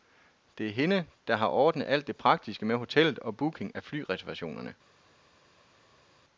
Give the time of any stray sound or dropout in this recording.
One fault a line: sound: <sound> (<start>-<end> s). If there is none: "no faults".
no faults